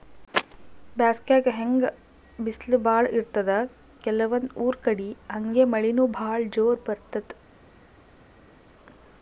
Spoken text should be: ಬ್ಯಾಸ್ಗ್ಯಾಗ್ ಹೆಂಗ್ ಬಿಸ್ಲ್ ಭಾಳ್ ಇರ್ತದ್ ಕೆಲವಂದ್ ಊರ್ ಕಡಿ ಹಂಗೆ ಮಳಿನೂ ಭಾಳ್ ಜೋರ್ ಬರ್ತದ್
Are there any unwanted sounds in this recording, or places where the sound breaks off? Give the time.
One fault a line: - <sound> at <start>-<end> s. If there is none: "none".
none